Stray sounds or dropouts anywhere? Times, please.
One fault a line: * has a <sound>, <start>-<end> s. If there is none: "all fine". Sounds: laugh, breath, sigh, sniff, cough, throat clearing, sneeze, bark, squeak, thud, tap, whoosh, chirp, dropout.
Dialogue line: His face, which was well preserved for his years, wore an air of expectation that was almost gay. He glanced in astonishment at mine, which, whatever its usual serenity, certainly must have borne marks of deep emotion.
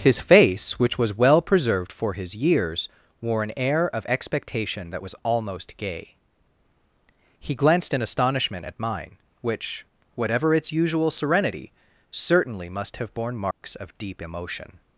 * has a dropout, 13.5-13.6 s